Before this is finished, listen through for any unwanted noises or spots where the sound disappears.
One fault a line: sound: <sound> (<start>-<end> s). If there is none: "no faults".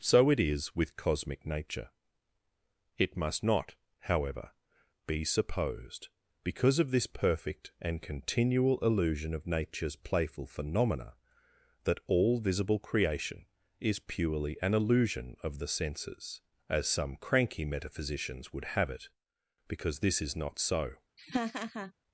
sound: laugh (21.2-21.9 s)